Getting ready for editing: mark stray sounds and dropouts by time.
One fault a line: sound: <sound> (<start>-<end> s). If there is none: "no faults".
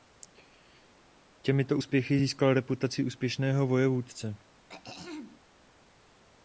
sound: throat clearing (4.7-5.4 s)